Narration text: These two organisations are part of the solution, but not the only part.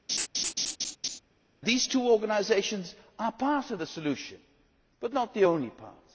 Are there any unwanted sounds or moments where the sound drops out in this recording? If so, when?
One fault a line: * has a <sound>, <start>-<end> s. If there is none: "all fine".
* has a laugh, 0.1-1.2 s